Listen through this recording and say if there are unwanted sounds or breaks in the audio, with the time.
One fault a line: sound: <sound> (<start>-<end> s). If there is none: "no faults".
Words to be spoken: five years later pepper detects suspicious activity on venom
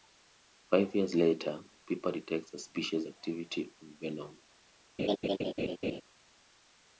sound: laugh (5.0-6.0 s)